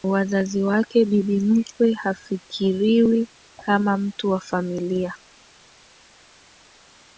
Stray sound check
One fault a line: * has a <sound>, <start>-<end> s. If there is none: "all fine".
all fine